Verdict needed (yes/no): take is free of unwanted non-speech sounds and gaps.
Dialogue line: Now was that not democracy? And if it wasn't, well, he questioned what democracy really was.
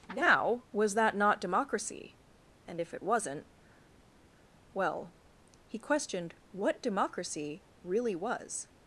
yes